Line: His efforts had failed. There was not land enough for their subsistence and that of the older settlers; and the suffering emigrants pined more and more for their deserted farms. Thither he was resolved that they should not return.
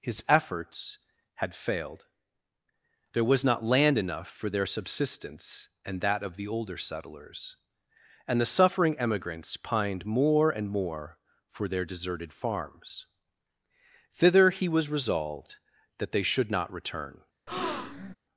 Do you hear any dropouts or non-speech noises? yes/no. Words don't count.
yes